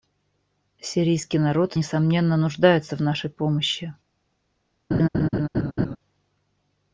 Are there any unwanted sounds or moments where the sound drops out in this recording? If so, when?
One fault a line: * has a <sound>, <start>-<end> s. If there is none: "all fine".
* has a laugh, 4.9-6.0 s